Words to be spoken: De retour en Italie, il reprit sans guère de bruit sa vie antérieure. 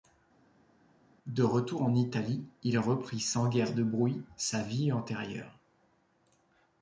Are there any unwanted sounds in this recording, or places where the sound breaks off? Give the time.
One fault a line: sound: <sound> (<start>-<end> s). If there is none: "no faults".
no faults